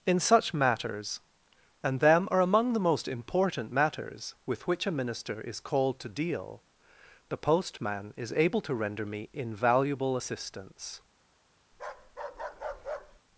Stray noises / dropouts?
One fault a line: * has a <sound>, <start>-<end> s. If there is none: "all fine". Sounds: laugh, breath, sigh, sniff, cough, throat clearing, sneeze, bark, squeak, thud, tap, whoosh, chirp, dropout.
* has a bark, 11.7-13.2 s